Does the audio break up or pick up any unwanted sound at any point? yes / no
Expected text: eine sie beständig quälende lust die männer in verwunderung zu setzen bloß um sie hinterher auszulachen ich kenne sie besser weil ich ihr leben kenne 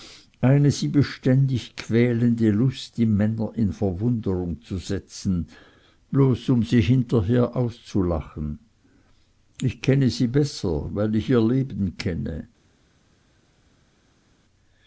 no